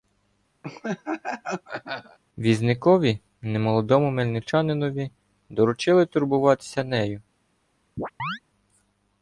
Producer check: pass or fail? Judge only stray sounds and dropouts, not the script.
fail